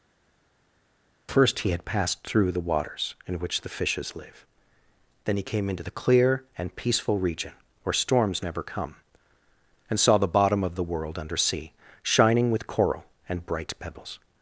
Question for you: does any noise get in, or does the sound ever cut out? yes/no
no